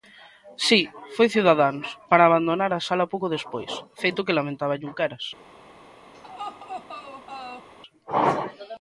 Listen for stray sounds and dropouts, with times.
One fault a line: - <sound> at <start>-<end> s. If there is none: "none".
- laugh at 6.1-7.7 s